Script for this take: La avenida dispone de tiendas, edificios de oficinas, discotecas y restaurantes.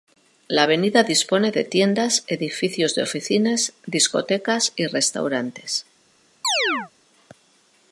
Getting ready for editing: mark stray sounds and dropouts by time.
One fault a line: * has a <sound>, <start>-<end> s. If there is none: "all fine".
* has a chirp, 6.4-6.9 s